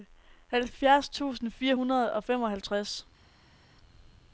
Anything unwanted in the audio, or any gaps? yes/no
no